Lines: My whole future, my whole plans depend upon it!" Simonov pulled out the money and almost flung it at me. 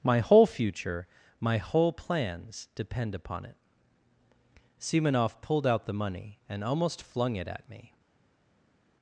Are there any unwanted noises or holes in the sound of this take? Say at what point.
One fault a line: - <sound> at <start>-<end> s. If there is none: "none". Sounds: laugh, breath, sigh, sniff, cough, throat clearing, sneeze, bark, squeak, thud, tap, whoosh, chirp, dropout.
none